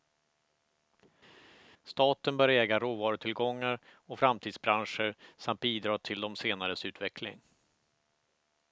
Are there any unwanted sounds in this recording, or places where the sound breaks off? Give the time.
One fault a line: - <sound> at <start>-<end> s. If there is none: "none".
none